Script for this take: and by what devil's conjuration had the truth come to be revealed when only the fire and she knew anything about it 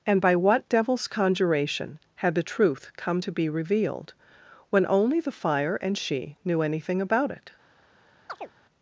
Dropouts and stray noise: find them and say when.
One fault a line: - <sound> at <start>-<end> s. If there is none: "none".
- chirp at 8.3-8.5 s